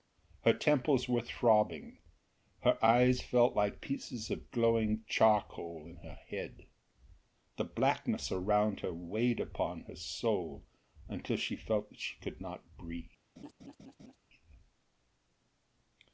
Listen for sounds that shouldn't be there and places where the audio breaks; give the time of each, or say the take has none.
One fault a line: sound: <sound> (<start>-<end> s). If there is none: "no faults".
sound: laugh (13.4-14.2 s)